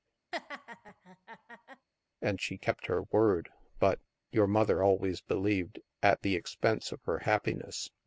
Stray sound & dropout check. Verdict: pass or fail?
fail